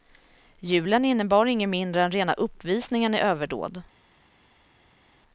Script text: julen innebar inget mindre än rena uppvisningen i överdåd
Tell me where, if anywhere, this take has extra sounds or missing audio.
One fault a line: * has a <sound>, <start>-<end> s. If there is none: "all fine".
all fine